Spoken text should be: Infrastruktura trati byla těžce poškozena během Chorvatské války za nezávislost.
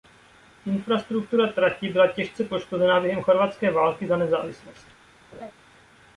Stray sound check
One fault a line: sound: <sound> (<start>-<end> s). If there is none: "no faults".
sound: laugh (5.3-5.5 s)